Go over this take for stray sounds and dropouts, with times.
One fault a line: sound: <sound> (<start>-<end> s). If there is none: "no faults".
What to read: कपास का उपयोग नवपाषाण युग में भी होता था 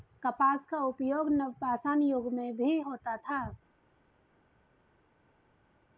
no faults